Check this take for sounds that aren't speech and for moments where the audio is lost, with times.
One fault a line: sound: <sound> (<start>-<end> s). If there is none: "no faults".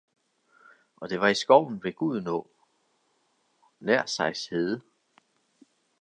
no faults